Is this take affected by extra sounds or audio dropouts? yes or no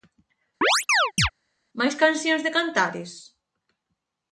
yes